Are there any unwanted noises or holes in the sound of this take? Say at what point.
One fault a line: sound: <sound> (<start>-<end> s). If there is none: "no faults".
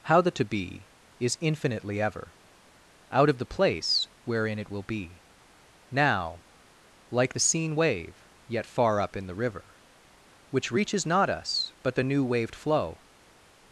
no faults